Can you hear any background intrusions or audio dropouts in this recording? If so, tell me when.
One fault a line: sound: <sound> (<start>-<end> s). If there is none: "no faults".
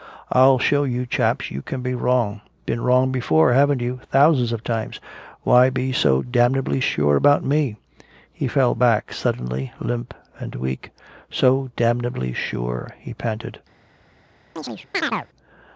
sound: chirp (14.6-15.3 s)